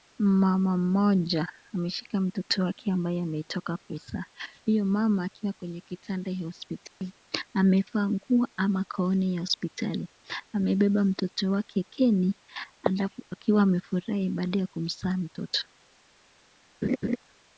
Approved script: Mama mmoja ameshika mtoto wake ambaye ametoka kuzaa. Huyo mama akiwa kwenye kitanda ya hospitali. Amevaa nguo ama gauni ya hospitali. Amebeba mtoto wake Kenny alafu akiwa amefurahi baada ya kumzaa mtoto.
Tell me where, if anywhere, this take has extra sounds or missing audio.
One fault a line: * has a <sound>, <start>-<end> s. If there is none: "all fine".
* has a dropout, 6.9-7.0 s
* has a laugh, 16.8-17.2 s